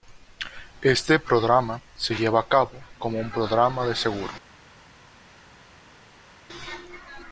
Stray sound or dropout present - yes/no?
no